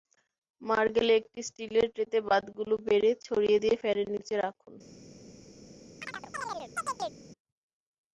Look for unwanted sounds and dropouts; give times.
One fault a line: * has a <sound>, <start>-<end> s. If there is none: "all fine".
* has a chirp, 6.0-7.2 s